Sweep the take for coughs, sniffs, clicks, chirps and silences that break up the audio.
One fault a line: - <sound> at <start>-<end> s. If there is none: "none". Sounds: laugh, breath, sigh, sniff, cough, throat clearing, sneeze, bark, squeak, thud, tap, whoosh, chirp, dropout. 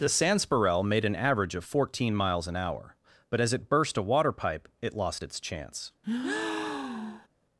- breath at 6.0-7.3 s